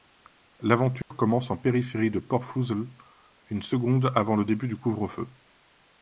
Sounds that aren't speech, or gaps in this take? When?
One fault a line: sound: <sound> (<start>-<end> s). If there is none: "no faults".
sound: dropout (1.0-1.1 s)